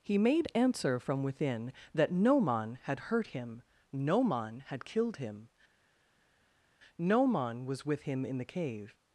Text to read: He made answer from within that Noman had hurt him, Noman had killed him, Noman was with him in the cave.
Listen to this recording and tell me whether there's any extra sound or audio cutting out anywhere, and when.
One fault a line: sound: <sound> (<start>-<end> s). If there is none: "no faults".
no faults